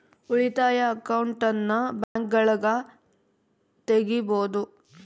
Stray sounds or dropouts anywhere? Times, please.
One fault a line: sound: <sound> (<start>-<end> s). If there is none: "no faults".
sound: dropout (2.0-2.2 s)